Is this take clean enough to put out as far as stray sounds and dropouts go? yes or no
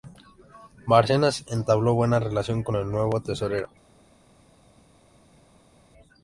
yes